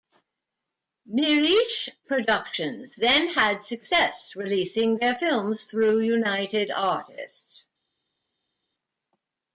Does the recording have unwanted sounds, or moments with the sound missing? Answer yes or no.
no